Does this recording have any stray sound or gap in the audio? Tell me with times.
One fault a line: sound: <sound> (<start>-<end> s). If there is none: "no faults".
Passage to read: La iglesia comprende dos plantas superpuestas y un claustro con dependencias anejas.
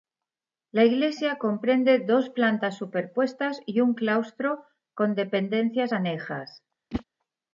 sound: whoosh (6.9-7.0 s)